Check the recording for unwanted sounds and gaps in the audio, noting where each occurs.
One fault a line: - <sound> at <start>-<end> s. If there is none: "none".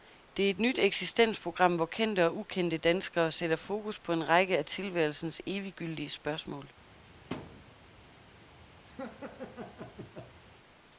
- thud at 7.3-7.7 s
- laugh at 8.9-10.4 s